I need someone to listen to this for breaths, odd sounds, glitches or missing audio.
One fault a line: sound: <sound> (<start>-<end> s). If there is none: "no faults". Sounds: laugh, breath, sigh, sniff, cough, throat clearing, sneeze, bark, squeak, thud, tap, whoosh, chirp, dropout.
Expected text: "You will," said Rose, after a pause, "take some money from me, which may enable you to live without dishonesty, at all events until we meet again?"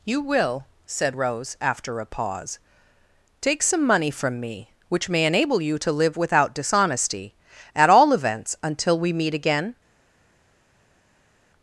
no faults